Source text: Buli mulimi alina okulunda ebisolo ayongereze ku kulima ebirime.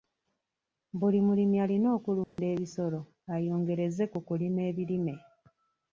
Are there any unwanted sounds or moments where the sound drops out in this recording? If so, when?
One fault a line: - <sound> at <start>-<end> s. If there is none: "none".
- dropout at 2.2-2.4 s